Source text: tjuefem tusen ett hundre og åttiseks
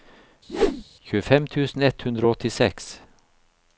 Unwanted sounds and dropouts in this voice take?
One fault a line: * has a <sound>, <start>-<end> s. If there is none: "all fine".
* has a whoosh, 0.5-0.8 s